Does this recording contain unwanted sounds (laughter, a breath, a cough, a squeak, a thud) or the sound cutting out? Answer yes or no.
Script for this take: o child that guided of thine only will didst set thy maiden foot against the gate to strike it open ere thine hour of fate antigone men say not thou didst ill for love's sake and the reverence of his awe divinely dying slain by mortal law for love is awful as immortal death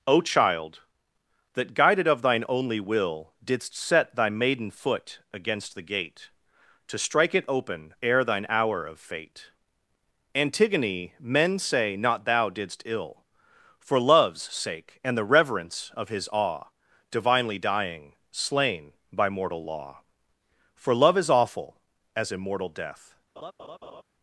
yes